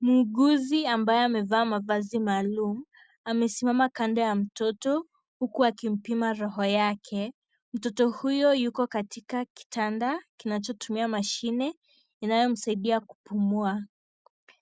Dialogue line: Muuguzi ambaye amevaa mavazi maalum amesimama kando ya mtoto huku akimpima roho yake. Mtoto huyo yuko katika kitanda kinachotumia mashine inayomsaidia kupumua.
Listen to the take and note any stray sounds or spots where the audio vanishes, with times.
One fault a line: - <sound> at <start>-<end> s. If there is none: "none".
none